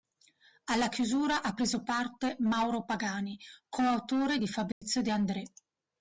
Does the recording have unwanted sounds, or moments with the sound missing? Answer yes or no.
yes